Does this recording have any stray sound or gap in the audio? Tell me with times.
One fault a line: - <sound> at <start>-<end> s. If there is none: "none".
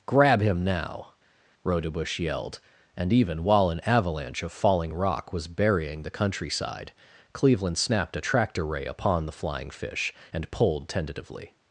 none